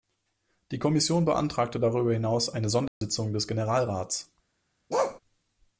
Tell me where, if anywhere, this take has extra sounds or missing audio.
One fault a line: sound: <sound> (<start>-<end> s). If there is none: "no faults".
sound: dropout (2.9-3.0 s)
sound: bark (4.9-5.2 s)